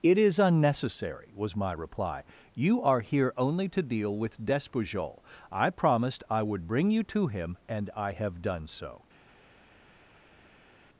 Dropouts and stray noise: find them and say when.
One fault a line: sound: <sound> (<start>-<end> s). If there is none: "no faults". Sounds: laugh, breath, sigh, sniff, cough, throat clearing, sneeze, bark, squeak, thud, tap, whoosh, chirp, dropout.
no faults